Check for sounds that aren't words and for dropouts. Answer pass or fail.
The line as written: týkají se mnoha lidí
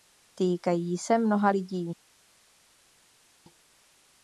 pass